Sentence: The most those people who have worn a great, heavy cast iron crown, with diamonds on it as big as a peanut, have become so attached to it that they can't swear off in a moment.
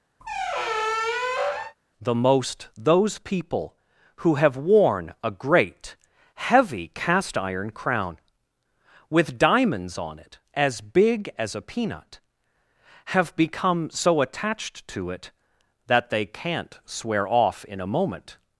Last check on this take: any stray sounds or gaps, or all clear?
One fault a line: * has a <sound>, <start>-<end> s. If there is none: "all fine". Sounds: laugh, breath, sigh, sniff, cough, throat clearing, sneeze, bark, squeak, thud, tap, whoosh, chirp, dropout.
* has a squeak, 0.2-1.8 s